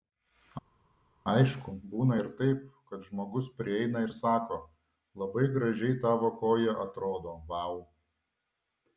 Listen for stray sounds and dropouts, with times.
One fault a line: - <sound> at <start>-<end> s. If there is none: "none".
none